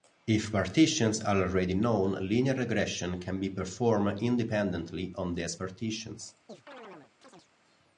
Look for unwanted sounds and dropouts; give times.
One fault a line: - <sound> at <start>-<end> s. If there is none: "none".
- chirp at 6.5-7.5 s